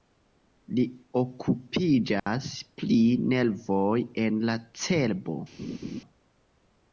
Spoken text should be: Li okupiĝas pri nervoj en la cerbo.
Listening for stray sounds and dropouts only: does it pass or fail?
fail